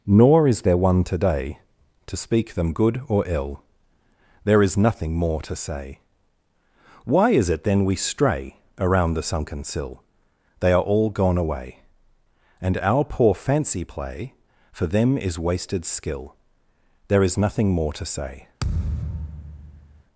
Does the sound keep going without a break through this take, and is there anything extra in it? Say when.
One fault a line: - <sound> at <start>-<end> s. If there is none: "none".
- thud at 18.6-20.0 s